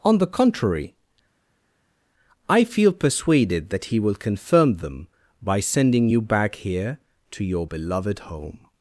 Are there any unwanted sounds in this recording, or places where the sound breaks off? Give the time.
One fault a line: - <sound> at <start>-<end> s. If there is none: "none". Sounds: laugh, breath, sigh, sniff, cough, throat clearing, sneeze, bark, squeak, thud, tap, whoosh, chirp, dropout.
none